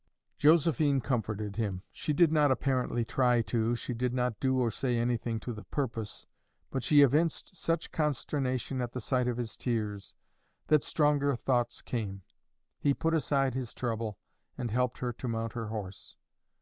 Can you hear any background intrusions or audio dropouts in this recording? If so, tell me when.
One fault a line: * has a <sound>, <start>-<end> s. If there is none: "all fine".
all fine